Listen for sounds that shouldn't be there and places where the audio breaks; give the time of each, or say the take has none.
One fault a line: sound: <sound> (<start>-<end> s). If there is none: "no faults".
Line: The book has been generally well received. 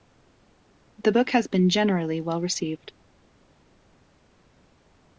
no faults